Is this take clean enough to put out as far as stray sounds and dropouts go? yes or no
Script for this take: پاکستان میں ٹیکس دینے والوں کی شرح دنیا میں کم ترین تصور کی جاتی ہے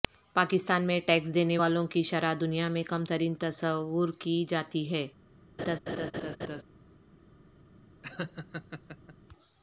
no